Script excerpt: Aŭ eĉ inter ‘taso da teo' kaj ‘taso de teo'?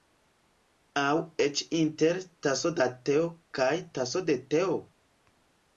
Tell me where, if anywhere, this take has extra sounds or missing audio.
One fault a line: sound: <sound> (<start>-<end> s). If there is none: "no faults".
no faults